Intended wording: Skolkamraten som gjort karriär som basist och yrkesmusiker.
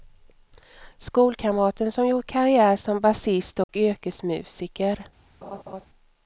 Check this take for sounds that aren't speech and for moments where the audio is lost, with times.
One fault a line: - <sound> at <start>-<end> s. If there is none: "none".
- dropout at 3.6-3.7 s
- laugh at 5.4-5.9 s